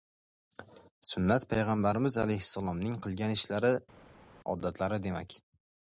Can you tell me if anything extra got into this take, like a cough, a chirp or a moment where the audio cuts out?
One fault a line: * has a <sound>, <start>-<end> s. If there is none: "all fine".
all fine